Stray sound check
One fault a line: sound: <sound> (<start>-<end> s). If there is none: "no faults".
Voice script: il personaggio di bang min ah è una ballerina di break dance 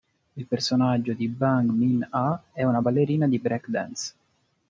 no faults